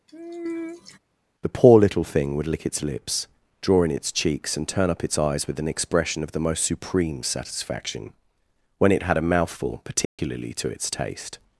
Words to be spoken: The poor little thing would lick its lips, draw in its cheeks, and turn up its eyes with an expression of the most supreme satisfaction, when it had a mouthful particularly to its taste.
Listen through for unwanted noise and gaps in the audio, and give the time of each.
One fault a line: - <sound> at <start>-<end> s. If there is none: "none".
- sigh at 0.1-1.0 s
- dropout at 10.0-10.2 s